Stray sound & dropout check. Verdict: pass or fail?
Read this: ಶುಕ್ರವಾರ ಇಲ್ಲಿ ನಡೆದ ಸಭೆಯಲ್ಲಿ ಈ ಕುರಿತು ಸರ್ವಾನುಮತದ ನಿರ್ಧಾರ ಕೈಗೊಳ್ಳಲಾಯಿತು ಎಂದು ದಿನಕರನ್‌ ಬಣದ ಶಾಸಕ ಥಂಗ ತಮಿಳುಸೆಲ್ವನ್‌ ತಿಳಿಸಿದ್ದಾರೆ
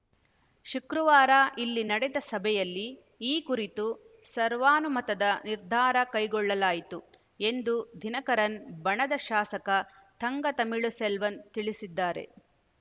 pass